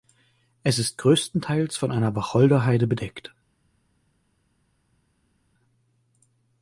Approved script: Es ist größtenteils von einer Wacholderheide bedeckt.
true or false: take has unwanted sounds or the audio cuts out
false